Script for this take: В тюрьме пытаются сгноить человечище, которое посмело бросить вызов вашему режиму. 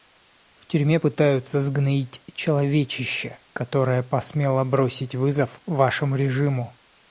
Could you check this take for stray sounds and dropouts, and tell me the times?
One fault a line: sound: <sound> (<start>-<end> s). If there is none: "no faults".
no faults